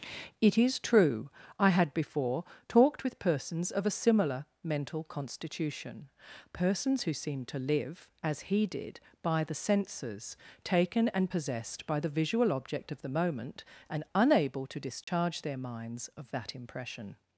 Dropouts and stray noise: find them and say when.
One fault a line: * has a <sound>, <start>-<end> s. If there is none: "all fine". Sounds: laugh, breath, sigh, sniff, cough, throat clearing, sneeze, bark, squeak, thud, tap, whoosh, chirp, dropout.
* has a dropout, 15.0-15.1 s